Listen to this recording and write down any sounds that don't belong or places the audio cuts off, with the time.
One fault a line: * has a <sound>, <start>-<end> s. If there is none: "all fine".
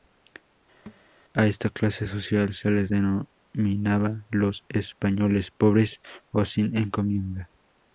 * has a thud, 0.9-1.0 s